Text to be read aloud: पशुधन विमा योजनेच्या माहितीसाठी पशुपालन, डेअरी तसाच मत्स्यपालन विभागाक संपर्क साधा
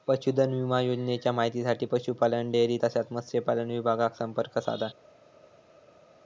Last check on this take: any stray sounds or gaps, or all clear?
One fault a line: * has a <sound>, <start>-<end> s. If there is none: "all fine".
all fine